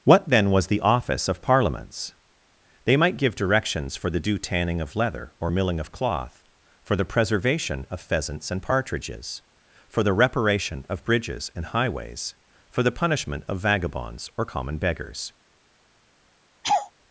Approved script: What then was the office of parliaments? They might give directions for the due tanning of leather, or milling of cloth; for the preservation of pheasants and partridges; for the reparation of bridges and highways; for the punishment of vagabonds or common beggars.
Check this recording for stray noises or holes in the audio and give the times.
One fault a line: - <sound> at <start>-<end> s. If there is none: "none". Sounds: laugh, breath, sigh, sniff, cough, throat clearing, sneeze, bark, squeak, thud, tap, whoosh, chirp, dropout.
- laugh at 16.6-16.9 s